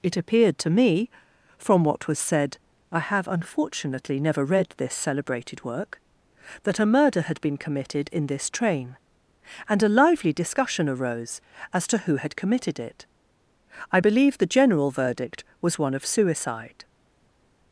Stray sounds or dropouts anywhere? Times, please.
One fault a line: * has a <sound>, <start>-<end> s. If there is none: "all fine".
all fine